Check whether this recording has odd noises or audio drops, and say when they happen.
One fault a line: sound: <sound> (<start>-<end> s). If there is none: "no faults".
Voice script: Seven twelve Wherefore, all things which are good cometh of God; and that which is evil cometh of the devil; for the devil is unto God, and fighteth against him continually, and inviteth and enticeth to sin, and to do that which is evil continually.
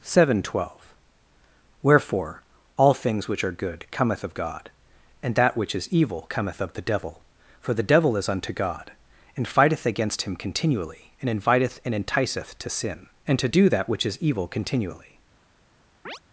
sound: chirp (16.1-16.2 s)